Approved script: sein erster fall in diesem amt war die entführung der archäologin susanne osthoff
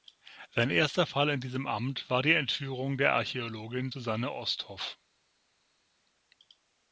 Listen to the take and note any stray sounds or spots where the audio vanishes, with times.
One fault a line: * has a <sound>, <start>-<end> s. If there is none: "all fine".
all fine